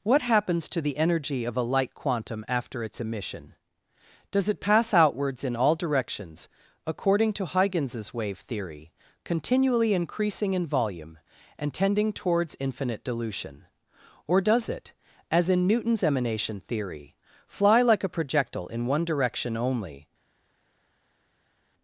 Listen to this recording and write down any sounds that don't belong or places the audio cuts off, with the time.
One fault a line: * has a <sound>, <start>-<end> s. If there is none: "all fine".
all fine